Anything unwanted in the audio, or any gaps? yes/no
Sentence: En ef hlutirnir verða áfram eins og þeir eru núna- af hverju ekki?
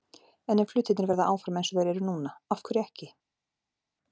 no